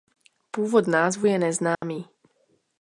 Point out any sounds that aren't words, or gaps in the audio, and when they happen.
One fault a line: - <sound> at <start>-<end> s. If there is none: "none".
- dropout at 1.7-1.8 s